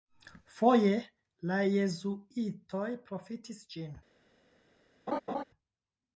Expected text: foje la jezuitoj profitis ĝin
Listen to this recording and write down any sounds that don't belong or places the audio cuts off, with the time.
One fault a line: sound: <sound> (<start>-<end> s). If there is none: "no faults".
sound: laugh (5.1-5.4 s)